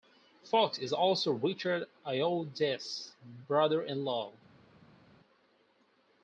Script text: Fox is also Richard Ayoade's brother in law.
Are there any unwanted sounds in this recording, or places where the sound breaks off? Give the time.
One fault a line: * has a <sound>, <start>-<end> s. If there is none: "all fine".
all fine